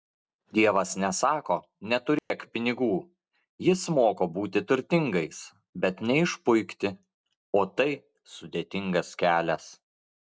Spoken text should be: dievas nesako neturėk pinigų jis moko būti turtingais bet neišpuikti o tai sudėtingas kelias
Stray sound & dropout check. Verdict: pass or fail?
fail